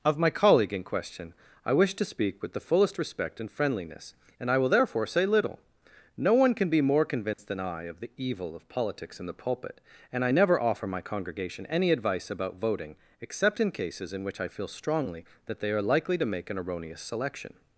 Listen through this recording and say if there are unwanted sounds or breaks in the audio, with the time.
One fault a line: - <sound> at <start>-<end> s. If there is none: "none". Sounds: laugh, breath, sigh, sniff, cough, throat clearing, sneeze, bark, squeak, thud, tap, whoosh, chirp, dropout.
- dropout at 7.3-7.4 s